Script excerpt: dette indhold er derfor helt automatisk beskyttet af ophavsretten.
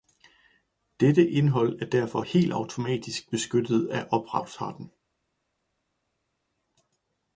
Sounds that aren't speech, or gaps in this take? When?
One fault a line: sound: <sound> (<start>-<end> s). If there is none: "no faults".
no faults